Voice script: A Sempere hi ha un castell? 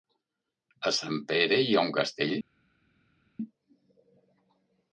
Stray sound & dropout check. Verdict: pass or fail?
pass